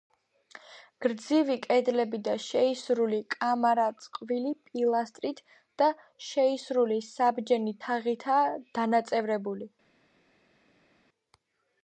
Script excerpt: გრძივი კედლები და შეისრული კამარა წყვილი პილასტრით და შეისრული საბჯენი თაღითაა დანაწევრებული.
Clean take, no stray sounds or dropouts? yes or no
yes